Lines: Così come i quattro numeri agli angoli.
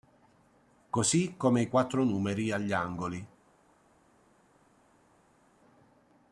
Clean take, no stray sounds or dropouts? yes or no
yes